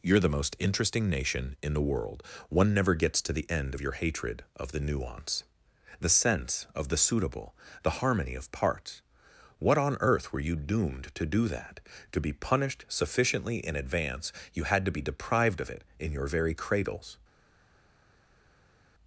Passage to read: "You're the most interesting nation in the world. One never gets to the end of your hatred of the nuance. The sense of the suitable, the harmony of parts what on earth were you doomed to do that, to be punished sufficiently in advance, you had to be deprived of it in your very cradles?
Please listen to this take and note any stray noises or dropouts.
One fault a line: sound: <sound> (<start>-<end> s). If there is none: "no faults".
no faults